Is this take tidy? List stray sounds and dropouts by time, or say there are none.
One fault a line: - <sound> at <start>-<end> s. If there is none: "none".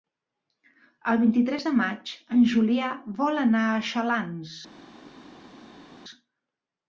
none